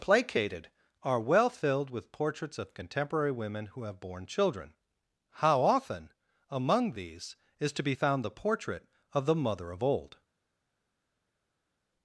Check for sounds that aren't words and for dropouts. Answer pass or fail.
pass